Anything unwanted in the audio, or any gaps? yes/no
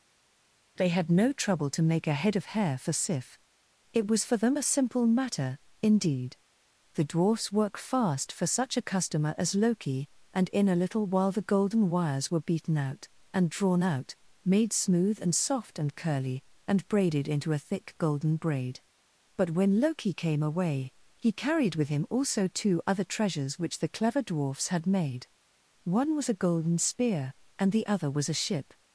no